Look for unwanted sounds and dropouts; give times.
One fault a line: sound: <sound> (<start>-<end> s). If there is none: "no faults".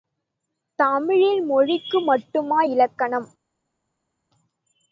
no faults